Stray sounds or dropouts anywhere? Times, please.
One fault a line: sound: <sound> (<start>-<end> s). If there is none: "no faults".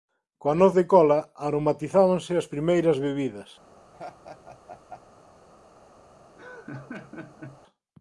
sound: laugh (3.9-5.0 s)
sound: laugh (6.4-7.6 s)